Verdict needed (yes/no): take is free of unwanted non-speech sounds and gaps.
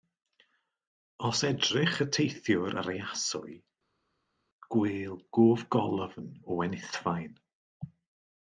yes